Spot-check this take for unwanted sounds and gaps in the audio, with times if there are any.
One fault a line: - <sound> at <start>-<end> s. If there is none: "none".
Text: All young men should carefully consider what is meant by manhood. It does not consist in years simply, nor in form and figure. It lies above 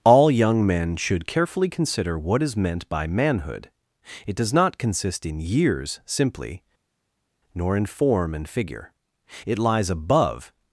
none